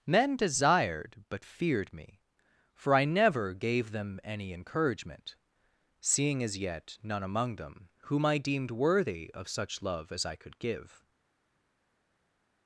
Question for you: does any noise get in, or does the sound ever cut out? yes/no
no